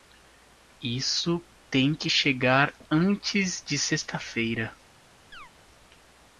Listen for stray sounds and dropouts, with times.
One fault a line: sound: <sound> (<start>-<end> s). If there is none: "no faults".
sound: chirp (5.3-5.5 s)